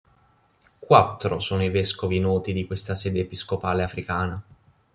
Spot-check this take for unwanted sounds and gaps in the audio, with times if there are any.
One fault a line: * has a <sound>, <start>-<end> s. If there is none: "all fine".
all fine